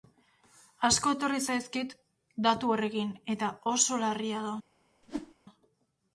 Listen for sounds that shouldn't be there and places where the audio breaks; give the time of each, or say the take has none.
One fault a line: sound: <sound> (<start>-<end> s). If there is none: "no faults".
sound: whoosh (5.0-5.3 s)